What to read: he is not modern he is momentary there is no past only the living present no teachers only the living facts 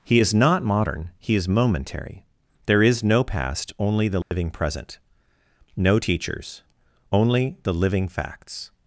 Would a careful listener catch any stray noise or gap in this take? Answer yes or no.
yes